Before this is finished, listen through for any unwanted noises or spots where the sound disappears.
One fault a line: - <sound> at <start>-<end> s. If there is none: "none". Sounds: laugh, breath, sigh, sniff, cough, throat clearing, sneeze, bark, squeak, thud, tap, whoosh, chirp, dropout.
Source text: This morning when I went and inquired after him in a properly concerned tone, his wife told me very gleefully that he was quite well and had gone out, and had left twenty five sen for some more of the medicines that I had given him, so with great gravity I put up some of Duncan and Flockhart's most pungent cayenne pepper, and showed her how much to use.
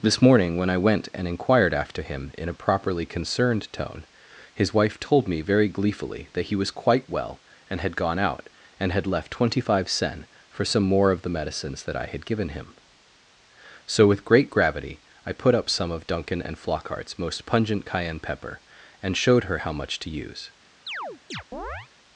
- chirp at 20.9-21.9 s